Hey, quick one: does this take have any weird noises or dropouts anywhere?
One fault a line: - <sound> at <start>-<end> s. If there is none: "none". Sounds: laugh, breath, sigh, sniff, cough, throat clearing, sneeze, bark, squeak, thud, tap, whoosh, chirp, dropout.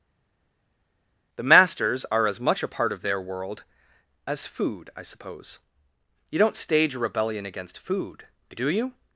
none